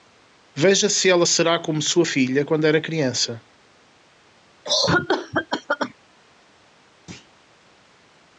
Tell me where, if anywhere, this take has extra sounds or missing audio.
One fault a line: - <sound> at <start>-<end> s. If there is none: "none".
- cough at 4.6-5.9 s
- thud at 7.1-7.3 s